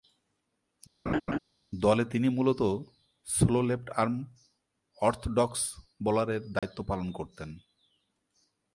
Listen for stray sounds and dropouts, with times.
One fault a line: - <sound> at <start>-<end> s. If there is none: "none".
- laugh at 1.1-1.4 s
- dropout at 6.6-6.6 s